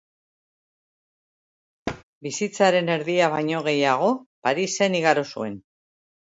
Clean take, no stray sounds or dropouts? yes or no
no